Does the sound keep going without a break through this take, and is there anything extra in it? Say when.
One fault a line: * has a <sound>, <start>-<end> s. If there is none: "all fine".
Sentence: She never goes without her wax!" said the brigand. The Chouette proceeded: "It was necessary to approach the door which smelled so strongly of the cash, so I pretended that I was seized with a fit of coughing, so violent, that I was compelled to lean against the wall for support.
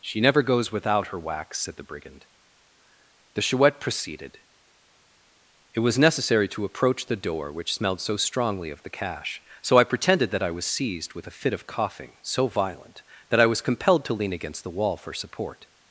all fine